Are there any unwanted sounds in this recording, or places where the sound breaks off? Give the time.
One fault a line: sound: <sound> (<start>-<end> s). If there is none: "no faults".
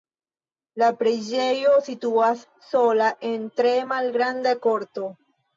no faults